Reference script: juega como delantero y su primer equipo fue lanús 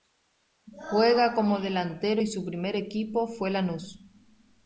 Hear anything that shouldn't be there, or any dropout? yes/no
no